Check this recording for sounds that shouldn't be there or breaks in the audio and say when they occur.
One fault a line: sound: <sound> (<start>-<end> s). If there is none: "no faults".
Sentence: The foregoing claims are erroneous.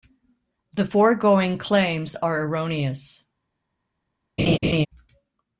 sound: laugh (4.4-4.9 s)